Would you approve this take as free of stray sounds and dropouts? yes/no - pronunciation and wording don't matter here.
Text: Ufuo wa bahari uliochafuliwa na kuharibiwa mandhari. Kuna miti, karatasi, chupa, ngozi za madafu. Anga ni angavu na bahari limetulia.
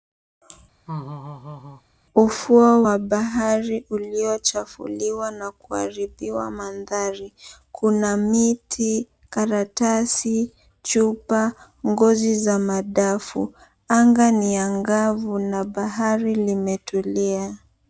no